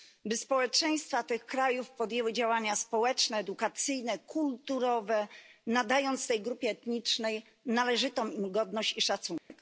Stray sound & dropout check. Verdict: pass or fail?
fail